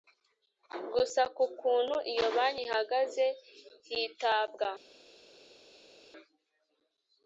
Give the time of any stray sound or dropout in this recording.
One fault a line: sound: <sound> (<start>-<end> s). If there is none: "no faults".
no faults